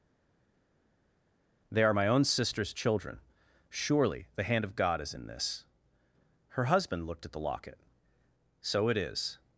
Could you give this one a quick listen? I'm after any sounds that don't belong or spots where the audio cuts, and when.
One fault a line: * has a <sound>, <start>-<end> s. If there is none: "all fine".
all fine